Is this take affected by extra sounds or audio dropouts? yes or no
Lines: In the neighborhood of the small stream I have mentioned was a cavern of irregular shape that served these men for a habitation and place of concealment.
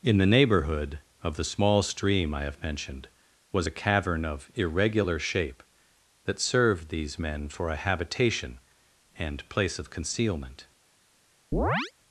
yes